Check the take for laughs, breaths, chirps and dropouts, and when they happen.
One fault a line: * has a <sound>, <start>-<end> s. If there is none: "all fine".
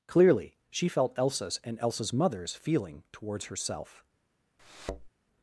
* has a thud, 4.6-5.1 s